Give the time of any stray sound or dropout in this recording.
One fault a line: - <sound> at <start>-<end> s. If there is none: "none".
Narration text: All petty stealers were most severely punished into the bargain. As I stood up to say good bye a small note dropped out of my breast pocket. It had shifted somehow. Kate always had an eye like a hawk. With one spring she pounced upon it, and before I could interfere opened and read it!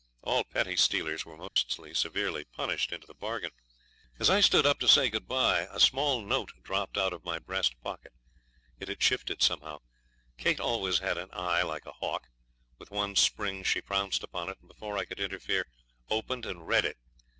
- dropout at 1.5-1.6 s